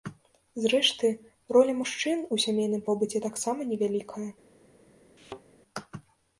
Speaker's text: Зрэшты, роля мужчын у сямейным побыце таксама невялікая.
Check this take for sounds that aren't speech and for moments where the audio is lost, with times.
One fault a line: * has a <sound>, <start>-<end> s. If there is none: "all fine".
* has a thud, 5.2-5.4 s